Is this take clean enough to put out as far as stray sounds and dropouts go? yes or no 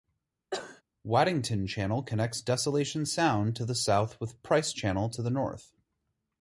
no